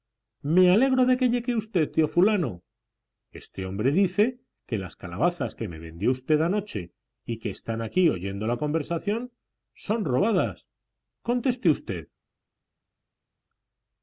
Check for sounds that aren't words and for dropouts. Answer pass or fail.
pass